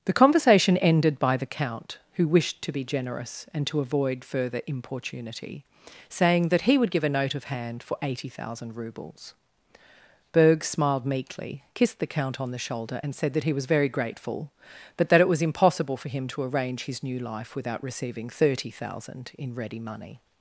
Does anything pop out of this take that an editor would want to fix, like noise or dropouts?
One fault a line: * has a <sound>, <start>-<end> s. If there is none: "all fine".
all fine